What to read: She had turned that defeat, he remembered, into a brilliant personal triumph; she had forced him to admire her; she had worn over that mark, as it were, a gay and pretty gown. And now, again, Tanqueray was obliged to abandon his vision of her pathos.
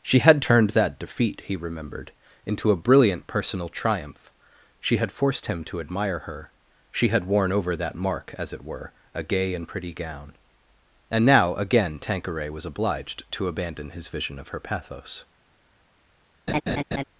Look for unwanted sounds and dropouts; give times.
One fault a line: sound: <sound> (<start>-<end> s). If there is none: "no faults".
sound: laugh (16.5-17.0 s)